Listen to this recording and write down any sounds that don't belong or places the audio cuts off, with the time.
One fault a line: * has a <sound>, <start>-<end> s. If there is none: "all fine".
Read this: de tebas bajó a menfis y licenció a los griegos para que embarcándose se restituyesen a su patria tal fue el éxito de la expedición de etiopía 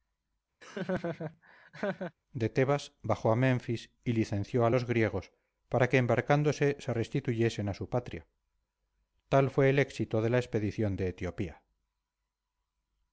* has a laugh, 0.6-2.1 s